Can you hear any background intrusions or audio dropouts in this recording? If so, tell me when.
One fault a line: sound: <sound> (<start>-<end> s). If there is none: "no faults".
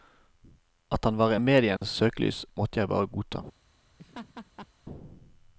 sound: dropout (1.8-1.8 s)
sound: laugh (4.0-4.7 s)